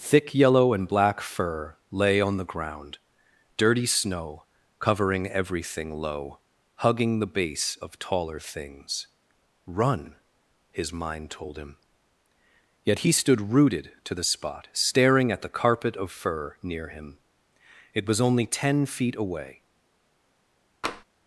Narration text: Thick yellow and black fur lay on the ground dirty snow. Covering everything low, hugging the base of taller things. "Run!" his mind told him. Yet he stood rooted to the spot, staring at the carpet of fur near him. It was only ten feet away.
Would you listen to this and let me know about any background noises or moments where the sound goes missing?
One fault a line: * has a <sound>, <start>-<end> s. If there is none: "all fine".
* has a tap, 20.8-21.0 s